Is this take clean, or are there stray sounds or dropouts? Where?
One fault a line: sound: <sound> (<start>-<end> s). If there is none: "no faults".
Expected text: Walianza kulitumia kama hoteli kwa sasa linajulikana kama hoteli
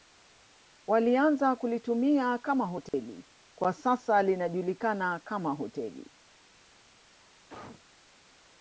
sound: dropout (2.9-2.9 s)
sound: cough (7.5-7.8 s)